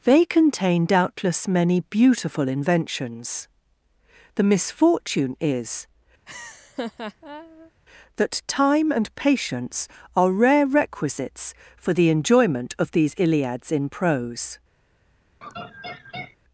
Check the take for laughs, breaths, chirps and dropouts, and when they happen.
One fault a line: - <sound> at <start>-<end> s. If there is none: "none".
- laugh at 6.3-7.7 s
- laugh at 15.4-16.4 s